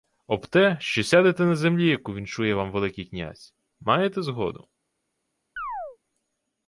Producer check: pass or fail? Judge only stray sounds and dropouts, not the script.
fail